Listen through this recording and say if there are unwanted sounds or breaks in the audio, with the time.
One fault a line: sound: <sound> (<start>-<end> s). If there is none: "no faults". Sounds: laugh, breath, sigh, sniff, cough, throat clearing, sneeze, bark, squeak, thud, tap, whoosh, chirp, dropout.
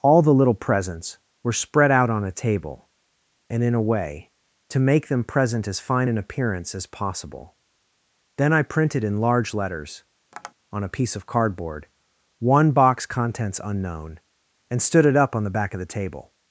sound: tap (10.3-10.5 s)